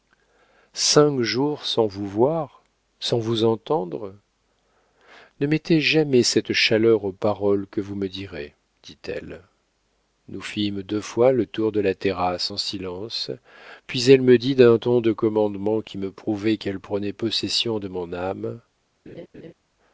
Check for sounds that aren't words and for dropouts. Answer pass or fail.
fail